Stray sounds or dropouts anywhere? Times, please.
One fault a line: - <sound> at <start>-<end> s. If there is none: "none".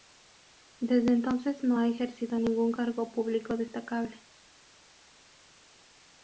none